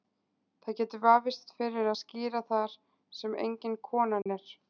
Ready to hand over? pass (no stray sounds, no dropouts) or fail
fail